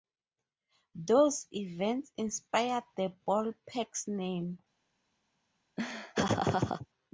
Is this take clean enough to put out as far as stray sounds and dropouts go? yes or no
no